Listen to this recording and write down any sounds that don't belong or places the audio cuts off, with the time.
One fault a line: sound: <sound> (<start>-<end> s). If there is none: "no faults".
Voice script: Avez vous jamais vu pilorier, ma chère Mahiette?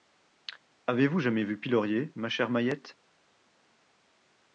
no faults